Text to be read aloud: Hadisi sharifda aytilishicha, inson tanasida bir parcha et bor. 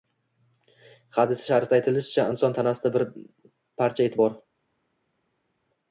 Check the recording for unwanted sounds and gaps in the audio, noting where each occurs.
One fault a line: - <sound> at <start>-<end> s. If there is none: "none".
none